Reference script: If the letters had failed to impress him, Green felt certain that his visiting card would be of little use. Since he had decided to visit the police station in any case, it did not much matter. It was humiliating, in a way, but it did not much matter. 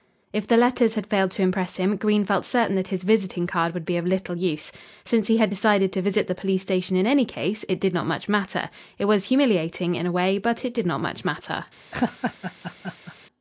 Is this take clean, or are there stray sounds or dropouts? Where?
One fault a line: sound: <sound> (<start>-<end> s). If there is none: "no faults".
sound: laugh (11.9-13.2 s)